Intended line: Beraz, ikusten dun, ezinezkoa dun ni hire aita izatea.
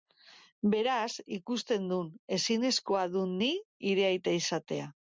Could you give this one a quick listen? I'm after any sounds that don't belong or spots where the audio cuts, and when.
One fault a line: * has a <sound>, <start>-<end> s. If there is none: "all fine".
all fine